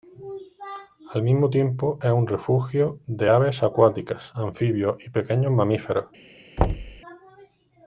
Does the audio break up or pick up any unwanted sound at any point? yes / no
yes